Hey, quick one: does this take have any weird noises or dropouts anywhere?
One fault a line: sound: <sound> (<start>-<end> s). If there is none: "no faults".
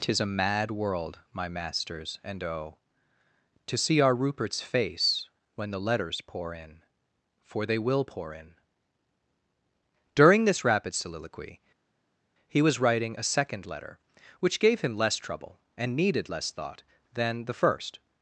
no faults